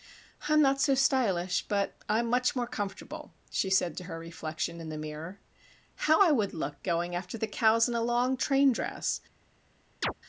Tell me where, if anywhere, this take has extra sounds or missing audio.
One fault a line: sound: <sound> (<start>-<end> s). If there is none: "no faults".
sound: chirp (10.0-10.1 s)